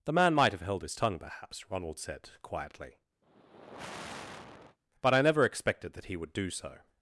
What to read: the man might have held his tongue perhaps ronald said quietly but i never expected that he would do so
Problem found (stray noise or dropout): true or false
true